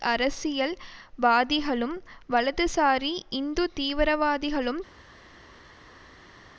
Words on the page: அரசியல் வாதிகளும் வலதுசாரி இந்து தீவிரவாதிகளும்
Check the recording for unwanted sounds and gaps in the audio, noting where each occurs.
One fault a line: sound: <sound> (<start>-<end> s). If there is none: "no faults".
no faults